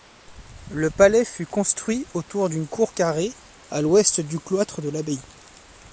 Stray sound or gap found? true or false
false